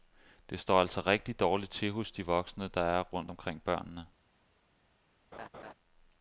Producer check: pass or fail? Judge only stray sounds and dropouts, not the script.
fail